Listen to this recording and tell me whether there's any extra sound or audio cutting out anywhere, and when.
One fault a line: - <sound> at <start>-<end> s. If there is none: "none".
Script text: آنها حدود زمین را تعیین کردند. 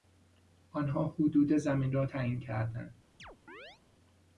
- chirp at 3.2-3.8 s